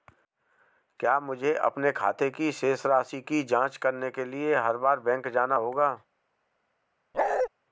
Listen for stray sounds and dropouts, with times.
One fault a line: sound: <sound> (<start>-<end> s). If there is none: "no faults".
sound: bark (7.1-7.5 s)